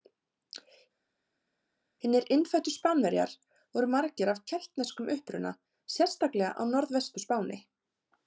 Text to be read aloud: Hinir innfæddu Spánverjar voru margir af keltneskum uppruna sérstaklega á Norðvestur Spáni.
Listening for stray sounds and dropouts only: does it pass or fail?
pass